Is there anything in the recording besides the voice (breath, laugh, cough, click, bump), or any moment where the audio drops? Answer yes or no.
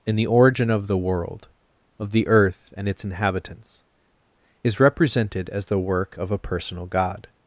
no